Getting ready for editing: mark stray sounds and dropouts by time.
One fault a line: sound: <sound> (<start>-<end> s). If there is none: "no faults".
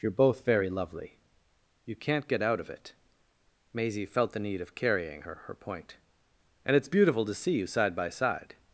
no faults